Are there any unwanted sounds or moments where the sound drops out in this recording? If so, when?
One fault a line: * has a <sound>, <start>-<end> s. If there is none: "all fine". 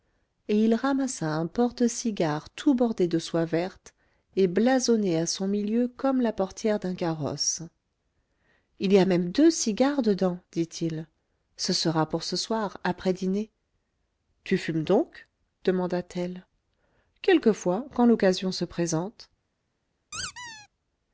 * has a squeak, 20.1-20.7 s